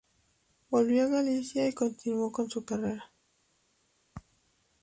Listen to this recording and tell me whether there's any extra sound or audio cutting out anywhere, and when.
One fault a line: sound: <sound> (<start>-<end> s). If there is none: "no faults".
no faults